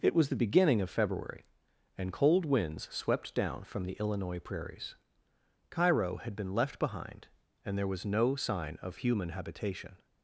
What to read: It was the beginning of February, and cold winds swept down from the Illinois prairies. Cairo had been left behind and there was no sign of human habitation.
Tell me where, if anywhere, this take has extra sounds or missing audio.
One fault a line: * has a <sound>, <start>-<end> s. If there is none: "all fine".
all fine